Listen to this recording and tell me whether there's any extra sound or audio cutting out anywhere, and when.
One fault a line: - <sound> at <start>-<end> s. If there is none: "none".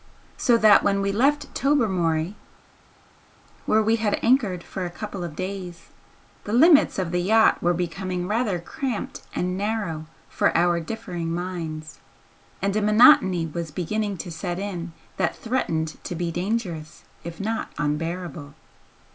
none